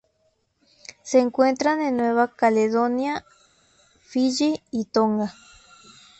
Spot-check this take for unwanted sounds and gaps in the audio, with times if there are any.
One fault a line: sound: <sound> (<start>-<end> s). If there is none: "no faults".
no faults